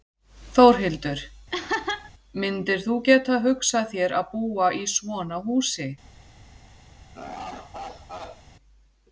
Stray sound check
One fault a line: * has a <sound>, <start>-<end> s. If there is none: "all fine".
* has a laugh, 1.5-2.1 s
* has a laugh, 7.1-8.4 s